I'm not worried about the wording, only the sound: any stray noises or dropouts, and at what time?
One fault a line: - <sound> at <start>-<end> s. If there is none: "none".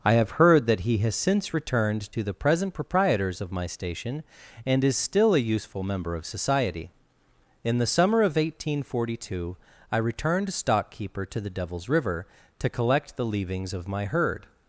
none